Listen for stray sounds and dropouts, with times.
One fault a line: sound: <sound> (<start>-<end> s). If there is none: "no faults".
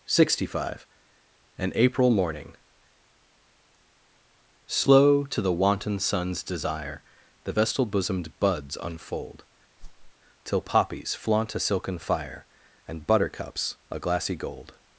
sound: whoosh (9.8-10.1 s)